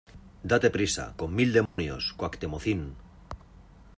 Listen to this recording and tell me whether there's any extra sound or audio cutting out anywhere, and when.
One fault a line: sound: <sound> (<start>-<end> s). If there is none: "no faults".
sound: dropout (1.7-1.8 s)